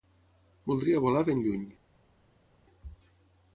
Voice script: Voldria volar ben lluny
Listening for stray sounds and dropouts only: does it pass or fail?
pass